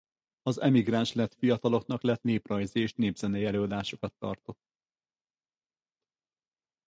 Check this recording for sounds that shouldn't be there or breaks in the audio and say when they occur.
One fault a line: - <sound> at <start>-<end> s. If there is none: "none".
none